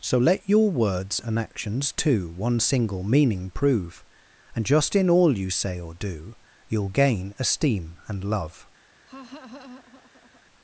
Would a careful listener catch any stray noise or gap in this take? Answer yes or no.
yes